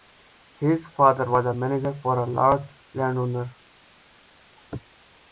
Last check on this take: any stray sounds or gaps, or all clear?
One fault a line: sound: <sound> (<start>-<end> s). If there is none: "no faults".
no faults